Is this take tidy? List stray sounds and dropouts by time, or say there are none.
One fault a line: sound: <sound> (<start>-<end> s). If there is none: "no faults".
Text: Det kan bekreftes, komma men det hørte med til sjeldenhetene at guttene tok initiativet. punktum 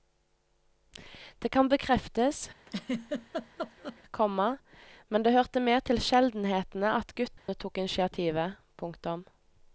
sound: laugh (2.7-4.0 s)
sound: dropout (7.4-7.5 s)